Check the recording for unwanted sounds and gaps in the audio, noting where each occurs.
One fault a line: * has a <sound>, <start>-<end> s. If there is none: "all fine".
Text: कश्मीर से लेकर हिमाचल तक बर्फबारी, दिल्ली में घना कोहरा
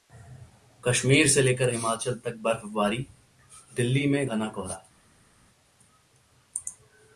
all fine